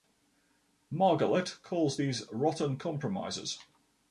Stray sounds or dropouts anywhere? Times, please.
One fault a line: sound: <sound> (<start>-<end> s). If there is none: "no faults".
no faults